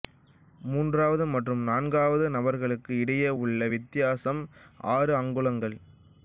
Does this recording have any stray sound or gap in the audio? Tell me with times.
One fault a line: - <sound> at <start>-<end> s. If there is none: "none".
none